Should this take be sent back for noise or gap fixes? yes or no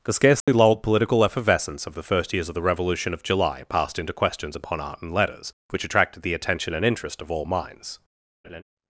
yes